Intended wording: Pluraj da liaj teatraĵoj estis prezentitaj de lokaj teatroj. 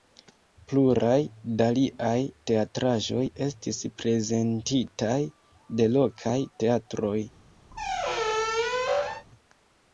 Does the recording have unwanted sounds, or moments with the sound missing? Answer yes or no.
yes